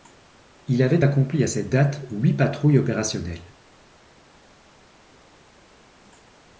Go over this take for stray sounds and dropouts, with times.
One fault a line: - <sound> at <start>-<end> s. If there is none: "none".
none